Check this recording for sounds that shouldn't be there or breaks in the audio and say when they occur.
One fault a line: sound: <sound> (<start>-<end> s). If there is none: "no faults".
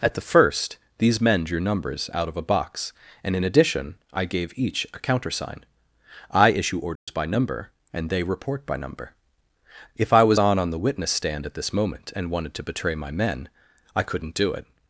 sound: dropout (7.0-7.1 s)